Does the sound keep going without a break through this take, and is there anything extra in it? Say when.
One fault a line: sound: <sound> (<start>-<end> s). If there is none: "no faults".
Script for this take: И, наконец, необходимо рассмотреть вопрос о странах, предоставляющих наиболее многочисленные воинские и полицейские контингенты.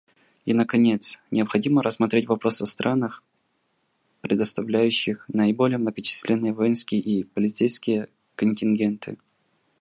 no faults